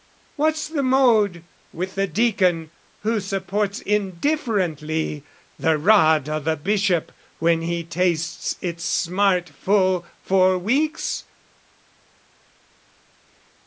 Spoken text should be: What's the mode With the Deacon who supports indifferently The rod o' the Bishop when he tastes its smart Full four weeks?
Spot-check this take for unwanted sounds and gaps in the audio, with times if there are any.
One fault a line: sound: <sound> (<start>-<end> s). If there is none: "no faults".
no faults